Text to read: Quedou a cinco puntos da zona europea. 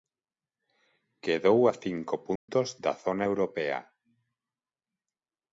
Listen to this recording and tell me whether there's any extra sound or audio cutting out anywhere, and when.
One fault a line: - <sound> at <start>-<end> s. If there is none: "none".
- dropout at 2.4-2.5 s